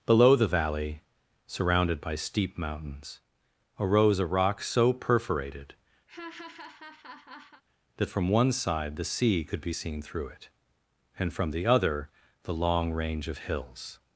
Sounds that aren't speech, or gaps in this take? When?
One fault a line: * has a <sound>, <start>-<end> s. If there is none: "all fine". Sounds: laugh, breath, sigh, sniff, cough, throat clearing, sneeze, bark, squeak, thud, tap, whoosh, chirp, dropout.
* has a laugh, 6.1-7.6 s